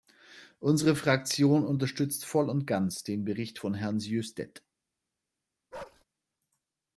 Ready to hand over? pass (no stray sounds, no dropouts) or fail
fail